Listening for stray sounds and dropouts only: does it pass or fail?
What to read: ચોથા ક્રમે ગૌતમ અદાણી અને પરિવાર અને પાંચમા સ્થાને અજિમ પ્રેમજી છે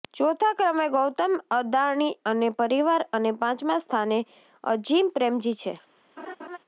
fail